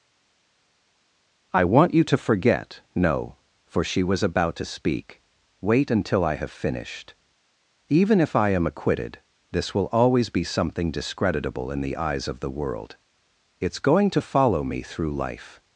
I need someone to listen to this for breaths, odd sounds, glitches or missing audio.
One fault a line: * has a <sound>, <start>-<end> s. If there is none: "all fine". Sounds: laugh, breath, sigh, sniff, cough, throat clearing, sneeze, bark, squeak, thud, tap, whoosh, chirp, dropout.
all fine